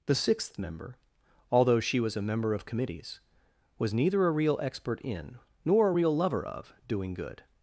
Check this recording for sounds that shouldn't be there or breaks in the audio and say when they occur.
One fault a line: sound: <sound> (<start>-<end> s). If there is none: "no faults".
no faults